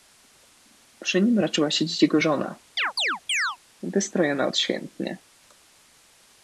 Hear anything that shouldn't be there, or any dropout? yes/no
yes